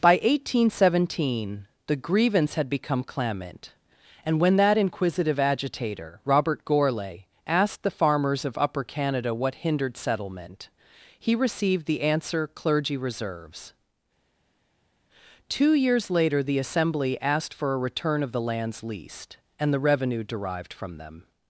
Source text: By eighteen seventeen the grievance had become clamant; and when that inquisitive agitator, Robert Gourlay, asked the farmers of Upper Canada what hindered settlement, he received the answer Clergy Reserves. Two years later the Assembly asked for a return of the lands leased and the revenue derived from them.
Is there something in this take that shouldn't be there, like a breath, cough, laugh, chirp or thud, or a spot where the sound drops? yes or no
no